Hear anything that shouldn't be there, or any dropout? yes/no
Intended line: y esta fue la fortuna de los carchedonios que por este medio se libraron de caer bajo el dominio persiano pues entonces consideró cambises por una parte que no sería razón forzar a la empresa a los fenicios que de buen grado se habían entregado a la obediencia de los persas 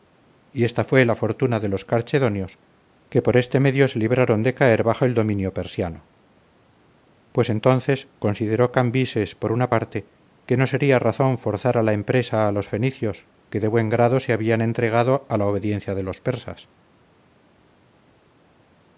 no